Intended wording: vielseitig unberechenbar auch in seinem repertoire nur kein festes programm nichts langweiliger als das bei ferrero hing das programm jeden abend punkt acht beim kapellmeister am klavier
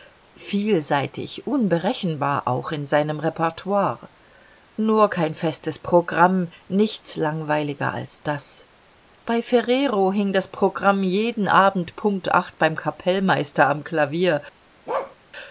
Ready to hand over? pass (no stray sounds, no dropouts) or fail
fail